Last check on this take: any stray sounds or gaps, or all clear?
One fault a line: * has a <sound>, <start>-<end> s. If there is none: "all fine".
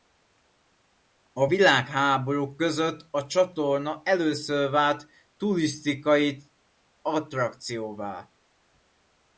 all fine